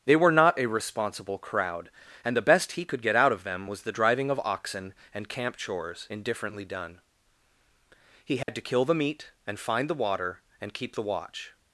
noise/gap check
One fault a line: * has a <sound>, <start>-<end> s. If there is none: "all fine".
* has a dropout, 8.4-8.5 s